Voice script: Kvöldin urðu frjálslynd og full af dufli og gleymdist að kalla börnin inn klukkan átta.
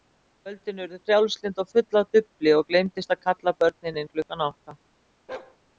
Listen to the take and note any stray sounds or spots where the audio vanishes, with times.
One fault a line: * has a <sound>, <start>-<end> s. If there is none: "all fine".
* has a bark, 5.3-5.6 s